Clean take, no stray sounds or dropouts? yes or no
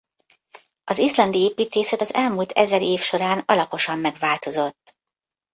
yes